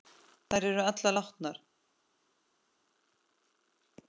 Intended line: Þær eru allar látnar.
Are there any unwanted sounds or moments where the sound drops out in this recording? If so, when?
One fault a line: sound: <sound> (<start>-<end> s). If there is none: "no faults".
no faults